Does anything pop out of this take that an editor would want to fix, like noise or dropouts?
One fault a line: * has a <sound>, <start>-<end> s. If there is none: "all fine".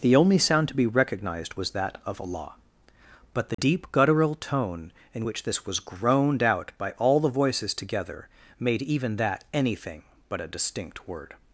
* has a dropout, 3.5-3.6 s